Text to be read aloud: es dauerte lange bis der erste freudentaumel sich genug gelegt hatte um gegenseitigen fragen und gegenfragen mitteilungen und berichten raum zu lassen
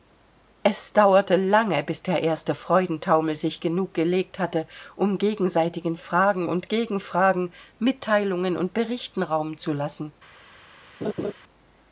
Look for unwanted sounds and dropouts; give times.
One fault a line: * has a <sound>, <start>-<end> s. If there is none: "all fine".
* has a laugh, 11.0-11.3 s